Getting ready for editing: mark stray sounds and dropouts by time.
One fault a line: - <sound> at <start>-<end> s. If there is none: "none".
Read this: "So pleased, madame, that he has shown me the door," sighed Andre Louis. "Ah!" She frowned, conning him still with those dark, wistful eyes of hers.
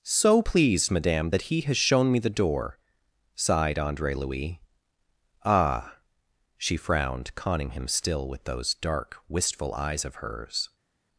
none